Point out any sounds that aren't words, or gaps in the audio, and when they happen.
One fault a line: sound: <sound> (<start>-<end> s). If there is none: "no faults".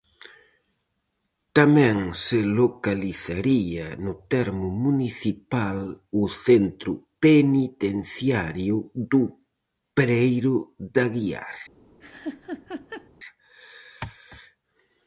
sound: laugh (12.0-13.1 s)